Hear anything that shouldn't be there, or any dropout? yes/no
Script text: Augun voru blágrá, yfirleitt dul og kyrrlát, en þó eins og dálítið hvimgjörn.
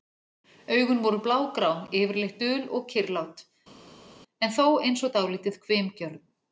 no